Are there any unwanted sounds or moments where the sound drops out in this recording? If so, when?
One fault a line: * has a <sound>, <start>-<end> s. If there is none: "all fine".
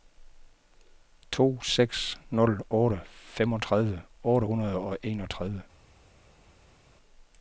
all fine